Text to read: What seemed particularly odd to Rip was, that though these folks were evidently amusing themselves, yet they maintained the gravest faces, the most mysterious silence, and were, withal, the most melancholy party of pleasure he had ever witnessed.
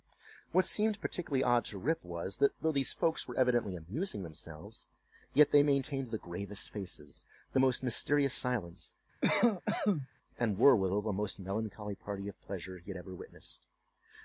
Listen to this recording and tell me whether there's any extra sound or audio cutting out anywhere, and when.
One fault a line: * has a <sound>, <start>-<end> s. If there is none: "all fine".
* has a cough, 9.2-10.1 s